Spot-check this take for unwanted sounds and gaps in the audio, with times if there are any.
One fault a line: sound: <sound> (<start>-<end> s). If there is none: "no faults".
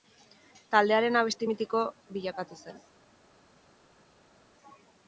no faults